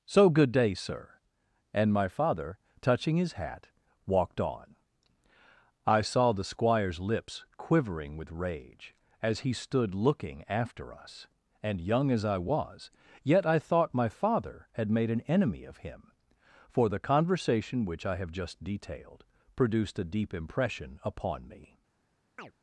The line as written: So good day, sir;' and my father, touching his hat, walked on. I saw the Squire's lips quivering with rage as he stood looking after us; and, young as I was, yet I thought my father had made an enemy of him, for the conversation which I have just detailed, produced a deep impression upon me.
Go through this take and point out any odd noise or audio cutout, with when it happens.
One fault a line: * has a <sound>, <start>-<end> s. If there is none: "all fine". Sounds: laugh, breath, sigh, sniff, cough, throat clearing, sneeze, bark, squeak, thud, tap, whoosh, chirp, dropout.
* has a chirp, 22.4-22.5 s